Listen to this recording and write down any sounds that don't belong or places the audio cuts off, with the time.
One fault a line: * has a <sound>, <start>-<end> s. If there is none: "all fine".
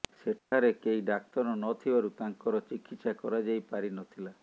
* has a dropout, 0.4-0.5 s